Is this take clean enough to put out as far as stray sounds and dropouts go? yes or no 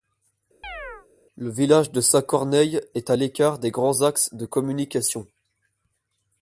no